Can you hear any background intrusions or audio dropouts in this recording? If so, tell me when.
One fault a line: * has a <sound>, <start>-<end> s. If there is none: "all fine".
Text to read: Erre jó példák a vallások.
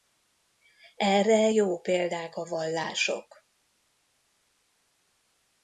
all fine